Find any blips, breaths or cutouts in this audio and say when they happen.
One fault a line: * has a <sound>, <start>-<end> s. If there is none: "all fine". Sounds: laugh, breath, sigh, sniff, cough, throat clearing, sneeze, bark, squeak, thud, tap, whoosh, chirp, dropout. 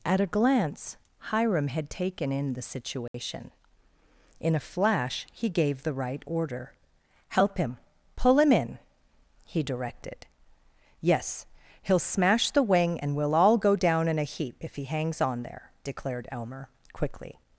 * has a dropout, 3.1-3.1 s